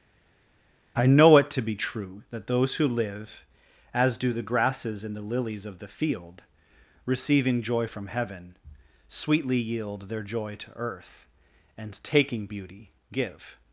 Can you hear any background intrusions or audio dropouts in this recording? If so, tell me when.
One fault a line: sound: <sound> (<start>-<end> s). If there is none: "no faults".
no faults